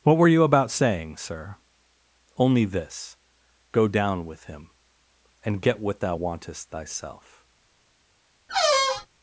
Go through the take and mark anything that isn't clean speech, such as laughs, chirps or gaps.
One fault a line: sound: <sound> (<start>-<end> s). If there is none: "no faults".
sound: squeak (8.5-9.1 s)